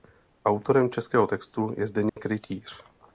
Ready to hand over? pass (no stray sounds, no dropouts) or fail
fail